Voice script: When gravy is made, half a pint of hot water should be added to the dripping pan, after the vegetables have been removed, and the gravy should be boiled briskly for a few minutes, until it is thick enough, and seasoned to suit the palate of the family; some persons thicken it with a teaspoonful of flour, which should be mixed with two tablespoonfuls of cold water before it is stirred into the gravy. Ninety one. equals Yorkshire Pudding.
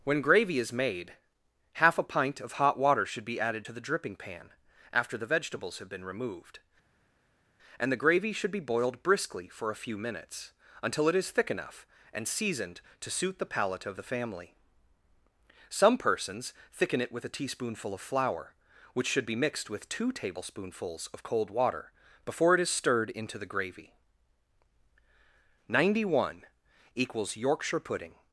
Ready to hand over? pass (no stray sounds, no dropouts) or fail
pass